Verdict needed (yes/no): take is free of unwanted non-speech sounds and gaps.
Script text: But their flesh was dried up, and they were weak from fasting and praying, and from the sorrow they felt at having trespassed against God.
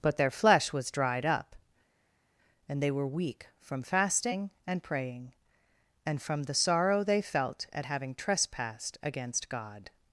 yes